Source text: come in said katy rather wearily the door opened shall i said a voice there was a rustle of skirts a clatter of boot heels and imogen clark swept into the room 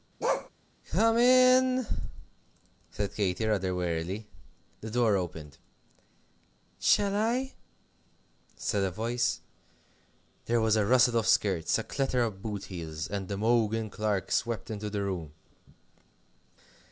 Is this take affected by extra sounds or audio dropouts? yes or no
yes